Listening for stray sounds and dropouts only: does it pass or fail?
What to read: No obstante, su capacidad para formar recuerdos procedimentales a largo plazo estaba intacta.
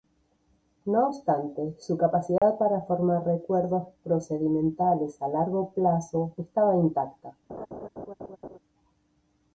fail